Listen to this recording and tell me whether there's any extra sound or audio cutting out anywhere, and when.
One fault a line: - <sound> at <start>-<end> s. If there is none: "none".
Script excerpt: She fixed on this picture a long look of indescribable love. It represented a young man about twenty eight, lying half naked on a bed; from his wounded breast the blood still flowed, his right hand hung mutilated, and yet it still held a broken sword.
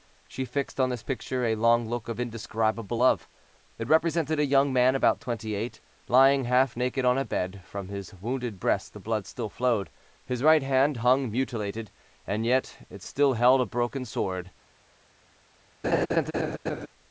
- laugh at 15.8-16.9 s